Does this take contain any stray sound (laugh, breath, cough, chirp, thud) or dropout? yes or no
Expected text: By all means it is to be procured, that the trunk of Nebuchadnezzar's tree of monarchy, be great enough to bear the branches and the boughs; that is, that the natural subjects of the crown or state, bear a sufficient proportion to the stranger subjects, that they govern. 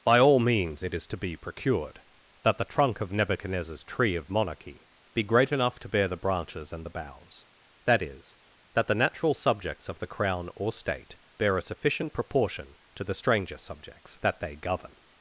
no